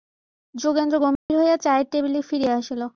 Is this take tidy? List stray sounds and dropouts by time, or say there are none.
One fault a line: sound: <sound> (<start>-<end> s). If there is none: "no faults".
sound: dropout (1.2-1.3 s)